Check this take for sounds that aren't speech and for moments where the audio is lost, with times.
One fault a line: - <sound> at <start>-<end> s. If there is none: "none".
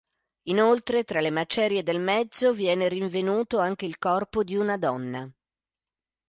none